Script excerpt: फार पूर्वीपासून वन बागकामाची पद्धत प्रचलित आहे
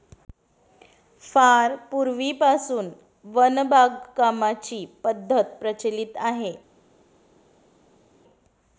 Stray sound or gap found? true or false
false